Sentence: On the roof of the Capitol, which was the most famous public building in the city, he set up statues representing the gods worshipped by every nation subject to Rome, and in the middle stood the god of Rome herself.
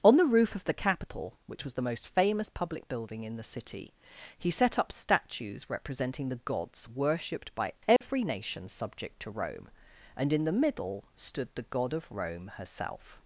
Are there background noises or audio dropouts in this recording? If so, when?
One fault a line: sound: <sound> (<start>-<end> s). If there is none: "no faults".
sound: dropout (8.0-8.0 s)